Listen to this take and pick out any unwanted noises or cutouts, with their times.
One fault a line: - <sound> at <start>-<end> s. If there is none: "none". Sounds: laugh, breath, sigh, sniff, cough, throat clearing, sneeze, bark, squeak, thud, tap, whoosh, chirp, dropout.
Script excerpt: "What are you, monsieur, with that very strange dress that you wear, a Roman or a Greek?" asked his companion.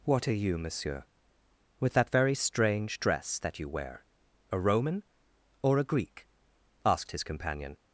none